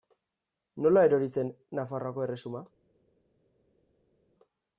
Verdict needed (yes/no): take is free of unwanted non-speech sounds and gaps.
yes